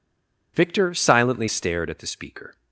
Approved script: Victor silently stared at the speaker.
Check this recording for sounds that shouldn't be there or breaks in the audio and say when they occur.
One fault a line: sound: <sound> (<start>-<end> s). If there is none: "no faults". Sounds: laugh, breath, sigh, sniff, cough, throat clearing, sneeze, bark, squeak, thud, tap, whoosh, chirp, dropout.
no faults